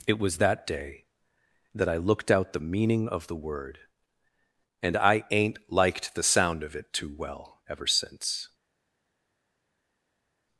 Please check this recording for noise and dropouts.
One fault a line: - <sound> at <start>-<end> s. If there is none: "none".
none